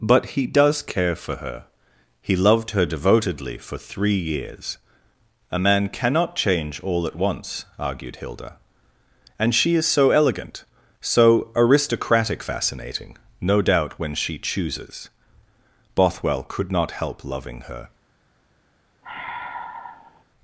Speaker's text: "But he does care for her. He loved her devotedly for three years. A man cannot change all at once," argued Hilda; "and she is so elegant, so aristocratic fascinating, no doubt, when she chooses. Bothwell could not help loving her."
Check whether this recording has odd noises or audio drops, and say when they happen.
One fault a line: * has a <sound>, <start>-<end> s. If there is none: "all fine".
* has a sigh, 19.0-20.2 s